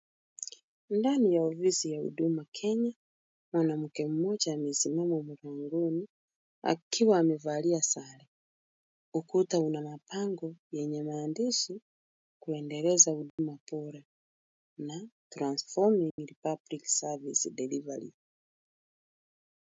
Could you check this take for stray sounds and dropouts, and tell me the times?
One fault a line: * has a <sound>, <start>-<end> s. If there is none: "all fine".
* has a dropout, 13.3-13.4 s
* has a dropout, 16.1-16.2 s